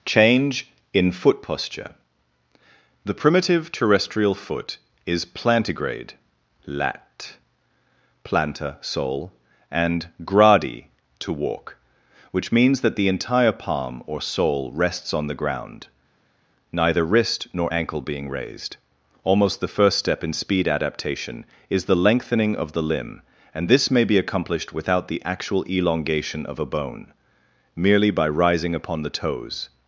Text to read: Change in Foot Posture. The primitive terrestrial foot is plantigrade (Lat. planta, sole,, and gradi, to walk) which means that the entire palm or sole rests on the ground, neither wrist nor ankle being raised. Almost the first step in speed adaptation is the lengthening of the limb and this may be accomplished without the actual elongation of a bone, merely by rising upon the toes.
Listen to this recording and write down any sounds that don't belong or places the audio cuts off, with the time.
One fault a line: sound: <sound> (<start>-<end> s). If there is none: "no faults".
no faults